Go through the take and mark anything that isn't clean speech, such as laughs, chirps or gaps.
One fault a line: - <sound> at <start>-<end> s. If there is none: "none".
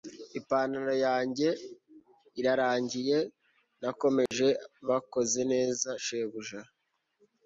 - dropout at 4.3-4.3 s